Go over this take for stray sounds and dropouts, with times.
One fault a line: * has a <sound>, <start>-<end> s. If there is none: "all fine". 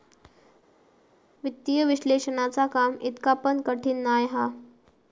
all fine